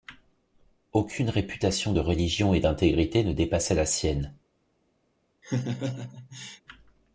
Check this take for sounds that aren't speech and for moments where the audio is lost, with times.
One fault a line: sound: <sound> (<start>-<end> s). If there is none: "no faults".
sound: laugh (5.4-6.6 s)